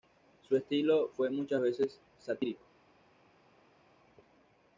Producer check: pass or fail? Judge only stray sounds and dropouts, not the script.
pass